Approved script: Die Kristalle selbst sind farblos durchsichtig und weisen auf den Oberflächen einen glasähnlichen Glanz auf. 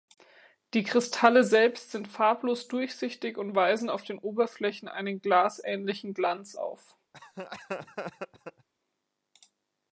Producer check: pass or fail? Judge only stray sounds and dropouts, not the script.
fail